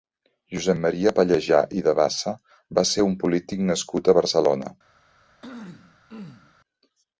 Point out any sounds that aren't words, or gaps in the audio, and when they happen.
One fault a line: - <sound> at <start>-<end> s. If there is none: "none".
- throat clearing at 5.4-6.6 s